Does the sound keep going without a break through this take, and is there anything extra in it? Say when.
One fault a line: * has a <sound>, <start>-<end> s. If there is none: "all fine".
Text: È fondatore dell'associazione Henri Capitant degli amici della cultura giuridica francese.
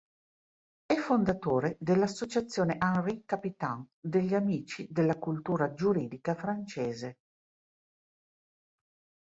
all fine